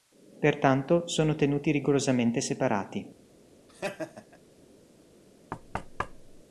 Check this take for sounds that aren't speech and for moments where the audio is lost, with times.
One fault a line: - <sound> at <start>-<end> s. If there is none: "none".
- laugh at 3.7-4.4 s
- thud at 5.5-6.4 s